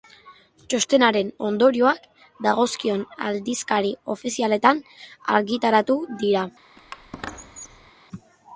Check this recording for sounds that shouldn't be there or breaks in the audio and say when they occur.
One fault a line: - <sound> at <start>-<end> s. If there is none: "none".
- squeak at 6.8-7.9 s